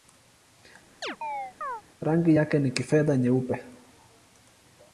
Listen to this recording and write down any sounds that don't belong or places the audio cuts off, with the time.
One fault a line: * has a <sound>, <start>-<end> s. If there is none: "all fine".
* has a chirp, 1.0-1.8 s